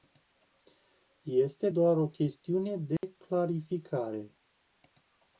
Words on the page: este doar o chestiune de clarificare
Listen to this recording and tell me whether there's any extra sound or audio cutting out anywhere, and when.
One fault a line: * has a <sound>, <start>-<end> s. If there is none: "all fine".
* has a dropout, 3.0-3.0 s